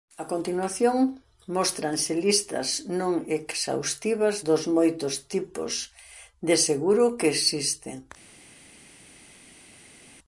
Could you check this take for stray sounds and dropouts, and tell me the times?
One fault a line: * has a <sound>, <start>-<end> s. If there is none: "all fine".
all fine